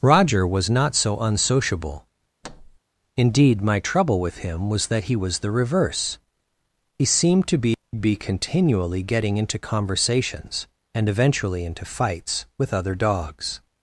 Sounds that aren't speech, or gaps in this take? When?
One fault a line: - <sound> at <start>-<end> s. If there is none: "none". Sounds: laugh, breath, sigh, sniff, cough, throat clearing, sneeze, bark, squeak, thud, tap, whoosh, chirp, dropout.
- thud at 2.4-2.8 s